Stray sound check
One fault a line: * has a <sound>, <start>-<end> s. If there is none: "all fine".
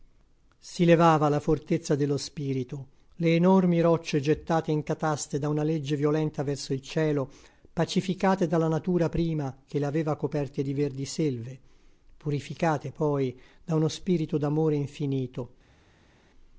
all fine